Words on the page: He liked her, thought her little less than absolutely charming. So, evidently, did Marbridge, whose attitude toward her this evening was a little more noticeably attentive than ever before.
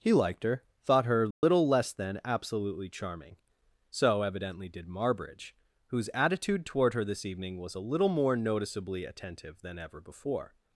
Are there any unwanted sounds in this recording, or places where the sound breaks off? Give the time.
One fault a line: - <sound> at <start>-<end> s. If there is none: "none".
- dropout at 1.3-1.4 s